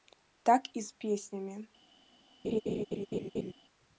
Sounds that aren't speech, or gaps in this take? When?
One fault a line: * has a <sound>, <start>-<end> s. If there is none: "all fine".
* has a laugh, 2.4-3.5 s